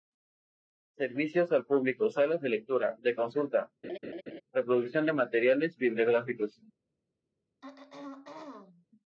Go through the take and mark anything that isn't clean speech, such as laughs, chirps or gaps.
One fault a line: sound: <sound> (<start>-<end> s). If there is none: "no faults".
sound: laugh (3.8-4.4 s)
sound: throat clearing (7.6-8.9 s)